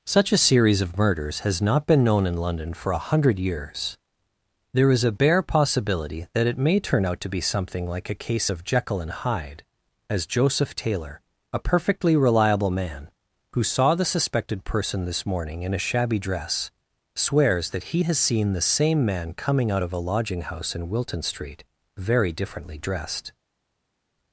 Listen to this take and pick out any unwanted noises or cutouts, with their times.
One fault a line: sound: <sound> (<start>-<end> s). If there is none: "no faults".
no faults